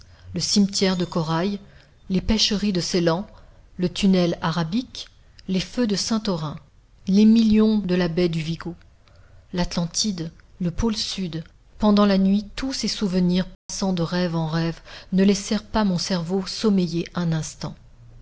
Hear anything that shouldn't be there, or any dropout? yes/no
yes